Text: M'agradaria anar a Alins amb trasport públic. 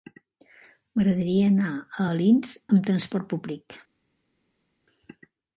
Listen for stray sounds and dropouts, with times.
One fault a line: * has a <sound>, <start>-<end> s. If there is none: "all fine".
all fine